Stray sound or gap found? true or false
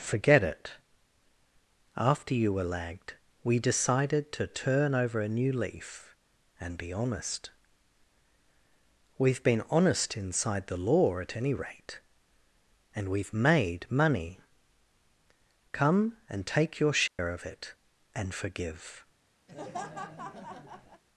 true